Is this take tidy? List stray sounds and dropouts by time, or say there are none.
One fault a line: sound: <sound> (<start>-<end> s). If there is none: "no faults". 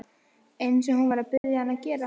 sound: dropout (1.4-1.4 s)